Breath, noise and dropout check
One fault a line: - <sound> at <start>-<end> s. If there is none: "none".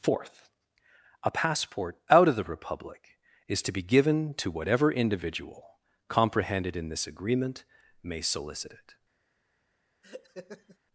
- laugh at 10.0-10.8 s